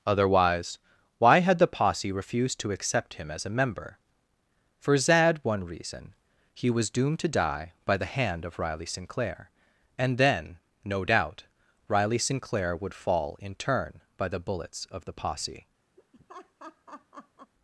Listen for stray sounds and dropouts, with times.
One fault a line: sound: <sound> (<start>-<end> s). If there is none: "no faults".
sound: laugh (16.0-17.5 s)